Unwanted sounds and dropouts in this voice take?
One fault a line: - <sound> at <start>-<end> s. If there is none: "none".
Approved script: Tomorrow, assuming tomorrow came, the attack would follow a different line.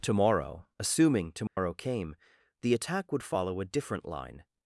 - dropout at 1.5-1.6 s